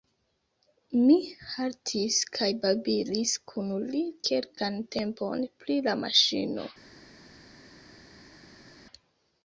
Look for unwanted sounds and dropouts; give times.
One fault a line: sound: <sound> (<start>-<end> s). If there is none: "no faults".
no faults